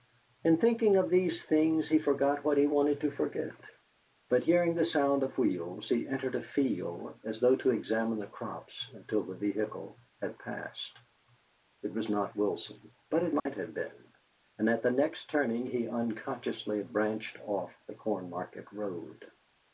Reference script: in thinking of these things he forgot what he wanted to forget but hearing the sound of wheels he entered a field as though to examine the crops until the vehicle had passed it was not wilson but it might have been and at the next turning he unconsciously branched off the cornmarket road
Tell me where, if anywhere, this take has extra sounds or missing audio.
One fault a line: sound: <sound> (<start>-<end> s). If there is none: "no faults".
sound: dropout (13.4-13.5 s)